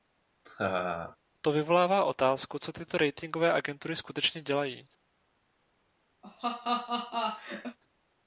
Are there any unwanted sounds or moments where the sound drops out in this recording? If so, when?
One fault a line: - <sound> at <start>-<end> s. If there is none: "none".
- laugh at 0.5-1.2 s
- laugh at 6.2-7.8 s